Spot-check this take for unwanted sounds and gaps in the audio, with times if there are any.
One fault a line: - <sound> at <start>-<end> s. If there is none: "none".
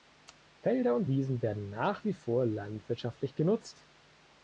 none